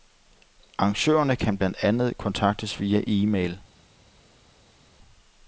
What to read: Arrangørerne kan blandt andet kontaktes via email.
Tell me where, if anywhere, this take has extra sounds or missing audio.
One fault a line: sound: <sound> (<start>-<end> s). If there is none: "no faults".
no faults